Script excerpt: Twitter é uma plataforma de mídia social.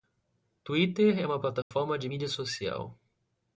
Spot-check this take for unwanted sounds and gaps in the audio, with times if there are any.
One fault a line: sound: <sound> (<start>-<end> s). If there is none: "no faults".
sound: dropout (1.6-1.7 s)